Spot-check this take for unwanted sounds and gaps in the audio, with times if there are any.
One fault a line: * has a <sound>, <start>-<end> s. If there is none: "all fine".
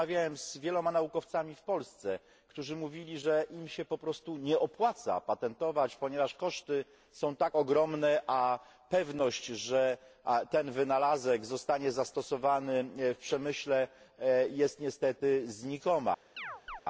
* has a chirp, 16.4-16.8 s